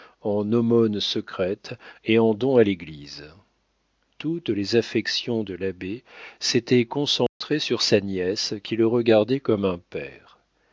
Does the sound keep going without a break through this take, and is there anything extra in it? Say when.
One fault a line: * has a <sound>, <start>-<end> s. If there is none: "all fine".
* has a dropout, 7.3-7.4 s